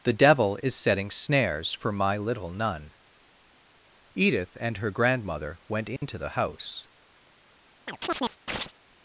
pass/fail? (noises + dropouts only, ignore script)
fail